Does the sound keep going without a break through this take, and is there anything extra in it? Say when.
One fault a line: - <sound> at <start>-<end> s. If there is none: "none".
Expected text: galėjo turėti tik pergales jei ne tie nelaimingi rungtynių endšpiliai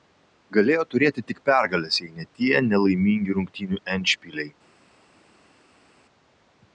none